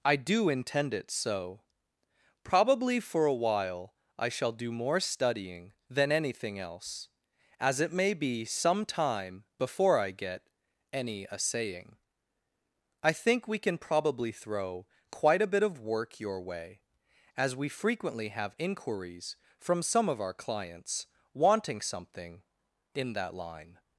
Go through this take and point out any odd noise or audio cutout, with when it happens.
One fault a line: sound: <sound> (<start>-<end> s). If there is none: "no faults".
no faults